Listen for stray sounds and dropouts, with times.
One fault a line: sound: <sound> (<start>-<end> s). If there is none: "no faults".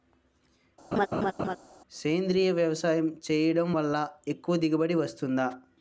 sound: laugh (0.9-1.6 s)